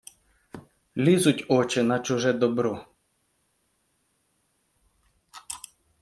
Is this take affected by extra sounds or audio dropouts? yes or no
no